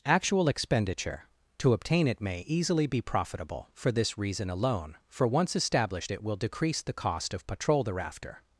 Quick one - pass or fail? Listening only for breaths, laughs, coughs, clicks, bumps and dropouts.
pass